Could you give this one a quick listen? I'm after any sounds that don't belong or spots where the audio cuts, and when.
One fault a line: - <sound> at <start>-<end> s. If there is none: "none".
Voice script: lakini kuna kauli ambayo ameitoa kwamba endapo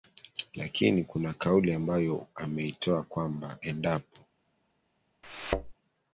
- thud at 5.2-5.7 s